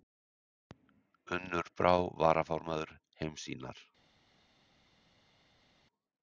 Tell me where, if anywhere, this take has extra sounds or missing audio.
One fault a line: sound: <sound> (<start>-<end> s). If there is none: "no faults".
no faults